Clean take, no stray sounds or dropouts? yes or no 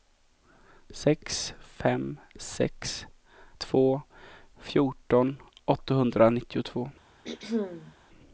no